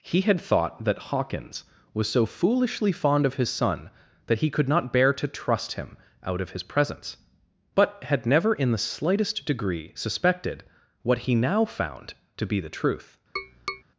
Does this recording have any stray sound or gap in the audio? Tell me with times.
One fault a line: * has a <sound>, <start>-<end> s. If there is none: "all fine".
* has a tap, 13.4-13.8 s